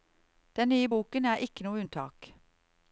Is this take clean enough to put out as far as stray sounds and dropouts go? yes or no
yes